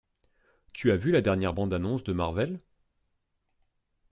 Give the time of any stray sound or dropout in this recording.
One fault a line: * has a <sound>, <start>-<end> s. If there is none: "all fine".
all fine